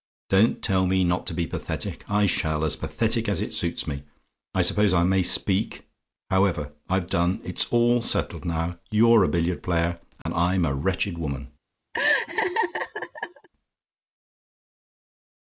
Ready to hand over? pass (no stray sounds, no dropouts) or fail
fail